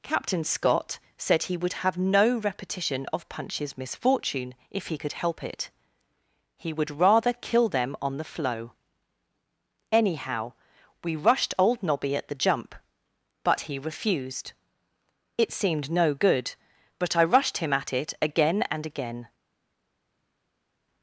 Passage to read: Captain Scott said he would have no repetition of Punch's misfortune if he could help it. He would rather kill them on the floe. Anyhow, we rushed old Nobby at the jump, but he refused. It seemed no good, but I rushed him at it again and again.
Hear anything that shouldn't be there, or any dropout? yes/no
no